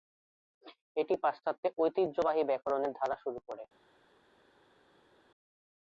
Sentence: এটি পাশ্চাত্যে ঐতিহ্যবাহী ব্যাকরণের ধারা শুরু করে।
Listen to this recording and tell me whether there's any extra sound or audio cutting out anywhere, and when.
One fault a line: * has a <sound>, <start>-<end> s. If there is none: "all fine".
all fine